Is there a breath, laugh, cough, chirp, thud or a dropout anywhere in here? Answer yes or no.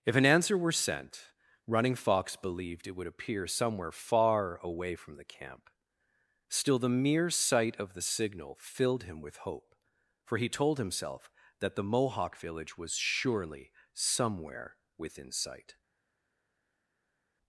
no